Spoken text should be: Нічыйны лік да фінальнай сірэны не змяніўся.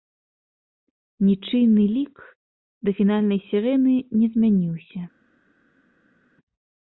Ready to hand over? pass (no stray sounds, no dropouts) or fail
pass